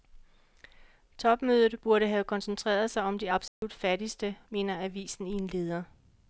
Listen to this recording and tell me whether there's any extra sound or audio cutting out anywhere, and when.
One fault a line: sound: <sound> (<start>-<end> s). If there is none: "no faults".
sound: dropout (3.5-3.6 s)